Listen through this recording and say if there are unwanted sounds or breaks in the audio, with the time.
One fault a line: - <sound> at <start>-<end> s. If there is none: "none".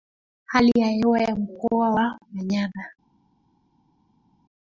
none